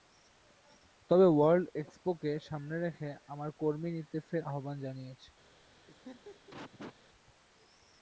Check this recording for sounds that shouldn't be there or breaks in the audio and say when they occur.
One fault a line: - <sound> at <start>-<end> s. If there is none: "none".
- laugh at 5.9-6.9 s